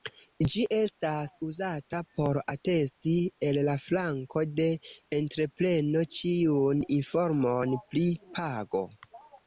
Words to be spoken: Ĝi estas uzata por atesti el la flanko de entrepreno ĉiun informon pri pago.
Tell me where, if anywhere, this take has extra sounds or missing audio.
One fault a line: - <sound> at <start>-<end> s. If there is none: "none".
none